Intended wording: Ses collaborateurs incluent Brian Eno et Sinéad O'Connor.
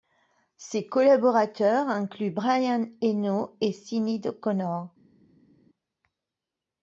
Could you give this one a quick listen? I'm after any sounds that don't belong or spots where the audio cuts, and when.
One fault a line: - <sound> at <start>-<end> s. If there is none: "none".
none